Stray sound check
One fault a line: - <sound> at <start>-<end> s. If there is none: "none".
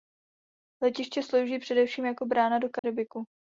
- dropout at 2.8-2.8 s